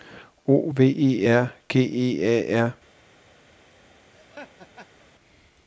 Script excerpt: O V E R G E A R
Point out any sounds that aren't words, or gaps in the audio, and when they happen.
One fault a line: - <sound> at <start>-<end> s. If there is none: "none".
- laugh at 4.1-5.1 s